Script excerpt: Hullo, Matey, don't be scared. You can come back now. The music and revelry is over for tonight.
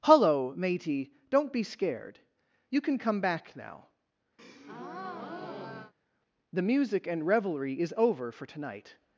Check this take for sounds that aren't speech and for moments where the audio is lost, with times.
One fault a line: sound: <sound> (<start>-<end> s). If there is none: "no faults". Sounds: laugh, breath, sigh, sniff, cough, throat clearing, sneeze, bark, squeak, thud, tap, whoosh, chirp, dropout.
sound: breath (4.4-5.9 s)